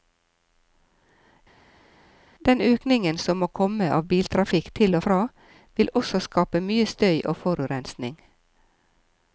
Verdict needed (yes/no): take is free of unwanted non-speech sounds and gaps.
yes